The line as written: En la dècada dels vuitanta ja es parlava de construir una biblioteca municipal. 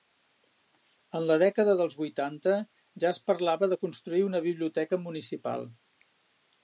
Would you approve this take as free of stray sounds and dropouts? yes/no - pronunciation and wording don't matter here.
yes